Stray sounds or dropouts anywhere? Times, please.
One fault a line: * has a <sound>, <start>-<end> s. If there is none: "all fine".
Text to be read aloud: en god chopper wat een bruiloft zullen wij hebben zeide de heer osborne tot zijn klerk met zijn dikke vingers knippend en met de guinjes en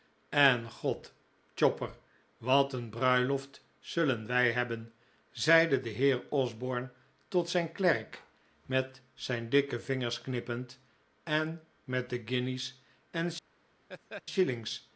* has a laugh, 13.9-14.2 s